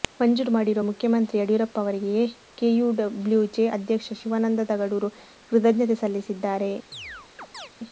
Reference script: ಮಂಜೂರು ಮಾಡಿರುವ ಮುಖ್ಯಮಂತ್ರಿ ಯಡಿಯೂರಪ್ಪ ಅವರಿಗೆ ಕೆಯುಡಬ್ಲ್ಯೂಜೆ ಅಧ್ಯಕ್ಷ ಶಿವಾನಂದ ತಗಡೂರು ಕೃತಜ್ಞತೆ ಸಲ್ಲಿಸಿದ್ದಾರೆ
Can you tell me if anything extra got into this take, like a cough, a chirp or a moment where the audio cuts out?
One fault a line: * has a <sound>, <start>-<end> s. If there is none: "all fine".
* has a chirp, 6.9-7.7 s